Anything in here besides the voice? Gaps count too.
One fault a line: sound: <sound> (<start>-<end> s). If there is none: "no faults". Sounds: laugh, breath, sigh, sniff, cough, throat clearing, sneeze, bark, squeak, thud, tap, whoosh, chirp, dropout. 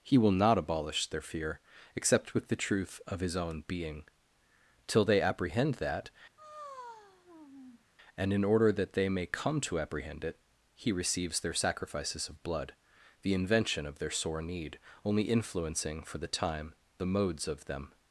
sound: sigh (6.4-7.8 s)